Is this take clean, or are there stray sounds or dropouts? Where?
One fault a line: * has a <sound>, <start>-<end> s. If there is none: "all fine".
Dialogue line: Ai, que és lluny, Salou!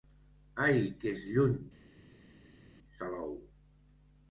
all fine